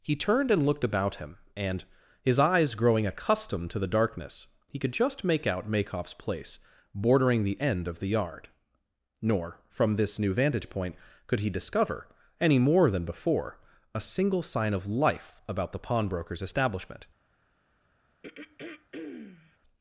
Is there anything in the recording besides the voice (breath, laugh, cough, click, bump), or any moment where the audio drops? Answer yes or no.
yes